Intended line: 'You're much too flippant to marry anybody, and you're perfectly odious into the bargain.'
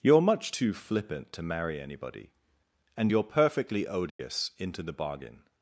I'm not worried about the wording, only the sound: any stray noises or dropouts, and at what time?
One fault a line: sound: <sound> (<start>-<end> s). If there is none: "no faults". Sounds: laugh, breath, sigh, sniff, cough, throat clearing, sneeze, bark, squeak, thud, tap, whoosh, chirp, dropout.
sound: dropout (4.1-4.2 s)